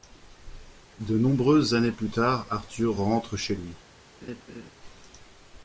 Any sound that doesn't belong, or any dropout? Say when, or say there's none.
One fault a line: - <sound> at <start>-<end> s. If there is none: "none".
- laugh at 4.2-4.7 s